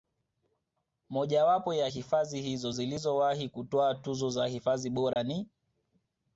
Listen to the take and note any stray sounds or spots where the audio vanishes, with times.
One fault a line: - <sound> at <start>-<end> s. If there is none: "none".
- dropout at 5.1-5.2 s